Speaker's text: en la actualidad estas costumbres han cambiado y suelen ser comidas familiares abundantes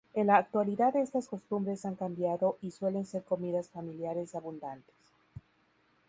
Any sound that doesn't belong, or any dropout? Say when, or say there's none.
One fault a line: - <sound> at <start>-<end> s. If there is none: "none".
none